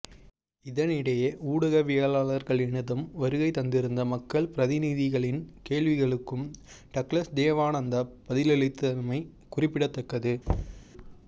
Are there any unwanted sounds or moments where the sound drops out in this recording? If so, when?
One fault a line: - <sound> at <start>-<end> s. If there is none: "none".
- thud at 10.5-10.8 s